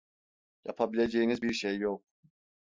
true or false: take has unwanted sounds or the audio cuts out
false